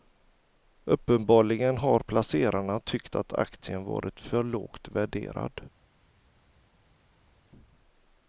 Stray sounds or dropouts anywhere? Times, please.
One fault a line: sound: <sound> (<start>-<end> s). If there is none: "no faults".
no faults